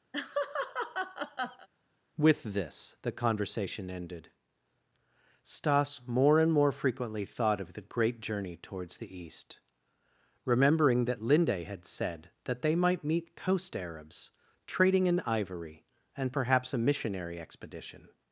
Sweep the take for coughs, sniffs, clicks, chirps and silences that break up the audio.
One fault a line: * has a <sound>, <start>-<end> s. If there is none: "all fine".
* has a laugh, 0.1-1.7 s